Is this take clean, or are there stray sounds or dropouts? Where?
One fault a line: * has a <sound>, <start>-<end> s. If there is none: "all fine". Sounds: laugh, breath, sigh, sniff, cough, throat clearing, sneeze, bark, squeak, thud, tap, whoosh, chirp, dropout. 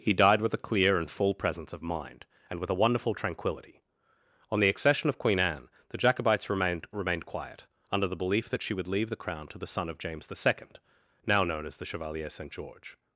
all fine